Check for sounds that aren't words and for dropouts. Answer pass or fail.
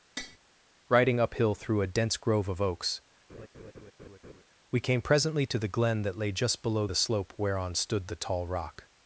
fail